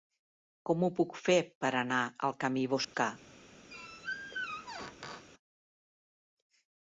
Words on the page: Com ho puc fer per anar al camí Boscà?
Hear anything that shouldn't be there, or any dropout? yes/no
yes